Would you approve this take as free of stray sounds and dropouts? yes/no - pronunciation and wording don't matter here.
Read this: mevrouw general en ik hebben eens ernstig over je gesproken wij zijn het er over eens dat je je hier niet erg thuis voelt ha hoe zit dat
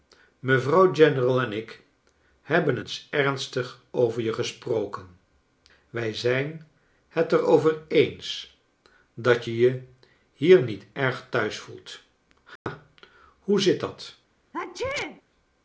no